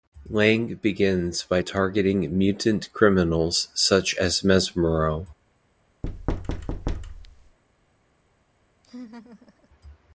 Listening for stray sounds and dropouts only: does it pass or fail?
fail